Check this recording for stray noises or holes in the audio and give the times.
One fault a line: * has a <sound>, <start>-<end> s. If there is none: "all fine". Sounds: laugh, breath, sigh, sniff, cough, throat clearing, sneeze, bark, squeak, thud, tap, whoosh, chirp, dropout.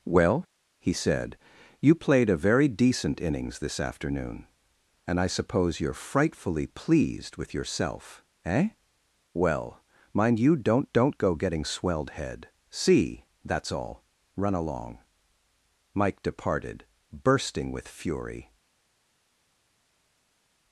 all fine